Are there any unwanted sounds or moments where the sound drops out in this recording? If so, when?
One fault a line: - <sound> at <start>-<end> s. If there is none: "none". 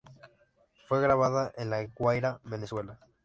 none